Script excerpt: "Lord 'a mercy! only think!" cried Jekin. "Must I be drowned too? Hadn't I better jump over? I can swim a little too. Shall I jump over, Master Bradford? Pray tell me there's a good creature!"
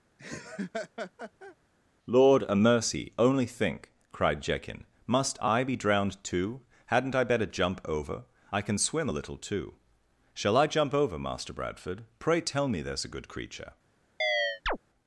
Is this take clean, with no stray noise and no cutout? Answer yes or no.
no